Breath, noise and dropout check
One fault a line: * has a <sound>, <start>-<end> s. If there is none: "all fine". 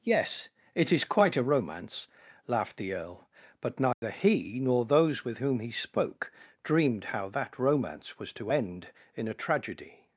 * has a dropout, 3.9-4.0 s